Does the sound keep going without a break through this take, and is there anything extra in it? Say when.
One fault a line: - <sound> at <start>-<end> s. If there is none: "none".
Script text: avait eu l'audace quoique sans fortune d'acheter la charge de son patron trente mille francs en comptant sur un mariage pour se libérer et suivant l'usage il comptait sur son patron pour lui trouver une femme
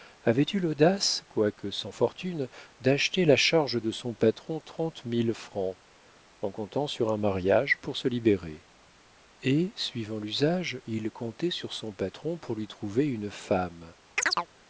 - chirp at 14.2-14.5 s